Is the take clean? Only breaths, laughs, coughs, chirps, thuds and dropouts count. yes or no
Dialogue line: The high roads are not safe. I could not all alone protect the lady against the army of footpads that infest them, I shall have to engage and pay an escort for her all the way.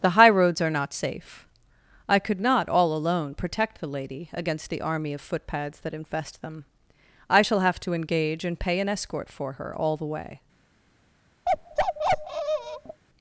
no